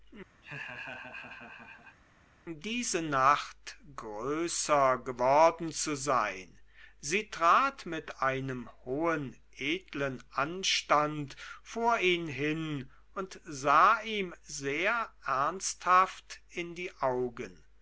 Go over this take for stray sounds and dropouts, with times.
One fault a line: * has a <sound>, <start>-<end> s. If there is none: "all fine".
* has a laugh, 0.4-2.0 s